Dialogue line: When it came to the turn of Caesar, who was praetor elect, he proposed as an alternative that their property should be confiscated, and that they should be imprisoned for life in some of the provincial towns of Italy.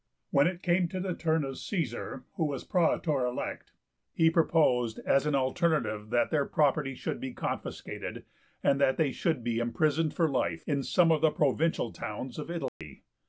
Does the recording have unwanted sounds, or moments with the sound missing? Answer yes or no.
yes